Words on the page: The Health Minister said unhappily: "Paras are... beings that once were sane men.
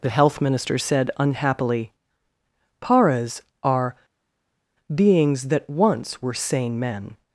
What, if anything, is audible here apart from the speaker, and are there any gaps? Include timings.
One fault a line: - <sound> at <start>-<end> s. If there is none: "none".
none